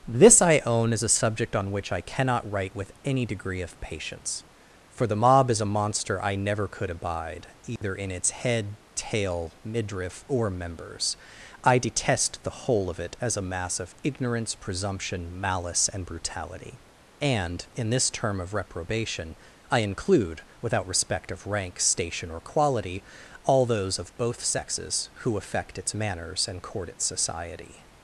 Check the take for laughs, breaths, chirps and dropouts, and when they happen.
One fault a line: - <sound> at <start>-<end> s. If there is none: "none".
- dropout at 7.8-7.8 s